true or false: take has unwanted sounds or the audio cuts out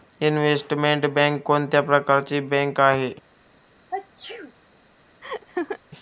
true